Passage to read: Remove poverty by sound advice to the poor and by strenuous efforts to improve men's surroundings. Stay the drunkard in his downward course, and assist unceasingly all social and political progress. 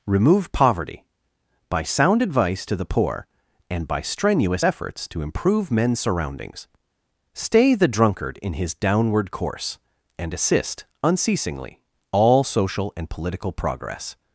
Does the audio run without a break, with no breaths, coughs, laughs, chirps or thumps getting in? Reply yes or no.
yes